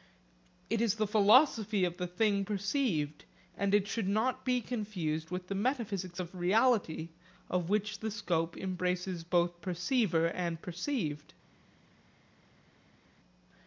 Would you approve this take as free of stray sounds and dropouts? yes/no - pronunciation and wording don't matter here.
yes